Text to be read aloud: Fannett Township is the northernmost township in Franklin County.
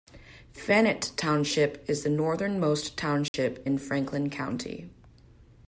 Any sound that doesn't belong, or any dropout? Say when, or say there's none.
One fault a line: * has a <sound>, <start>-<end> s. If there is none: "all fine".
* has a dropout, 3.3-3.3 s